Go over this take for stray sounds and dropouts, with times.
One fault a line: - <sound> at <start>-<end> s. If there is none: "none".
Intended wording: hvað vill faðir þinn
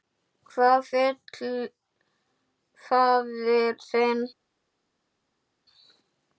none